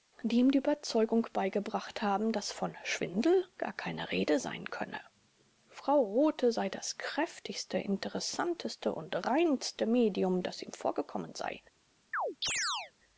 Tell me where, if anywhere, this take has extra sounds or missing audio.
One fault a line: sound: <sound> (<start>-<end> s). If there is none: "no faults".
sound: chirp (12.1-12.9 s)